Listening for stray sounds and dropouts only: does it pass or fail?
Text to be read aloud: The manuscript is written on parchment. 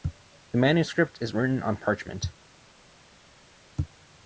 pass